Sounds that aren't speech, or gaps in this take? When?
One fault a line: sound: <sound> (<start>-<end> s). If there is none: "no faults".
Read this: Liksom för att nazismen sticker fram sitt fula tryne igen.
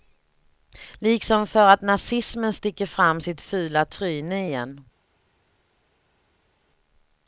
no faults